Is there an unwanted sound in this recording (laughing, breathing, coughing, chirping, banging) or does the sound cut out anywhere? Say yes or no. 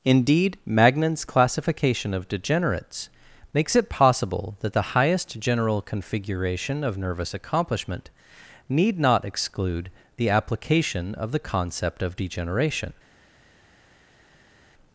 no